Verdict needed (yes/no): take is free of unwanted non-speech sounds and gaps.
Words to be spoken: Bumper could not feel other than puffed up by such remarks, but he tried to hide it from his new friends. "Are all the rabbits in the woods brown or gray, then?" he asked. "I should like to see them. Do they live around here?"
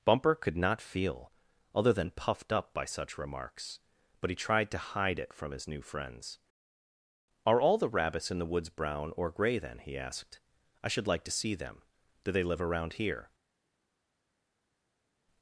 yes